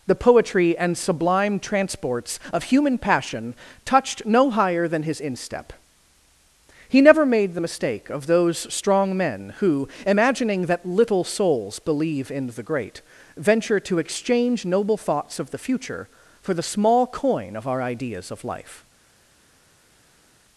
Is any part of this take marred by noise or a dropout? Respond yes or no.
no